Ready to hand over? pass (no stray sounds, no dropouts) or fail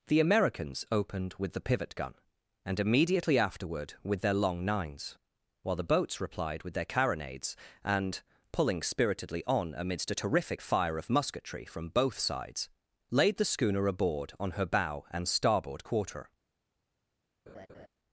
fail